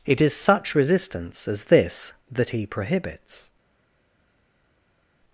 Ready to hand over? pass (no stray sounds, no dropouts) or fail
pass